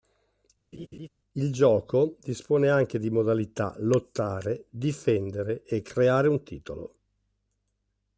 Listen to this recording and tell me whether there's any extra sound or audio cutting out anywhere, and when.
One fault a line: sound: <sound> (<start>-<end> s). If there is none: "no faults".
sound: laugh (0.7-1.1 s)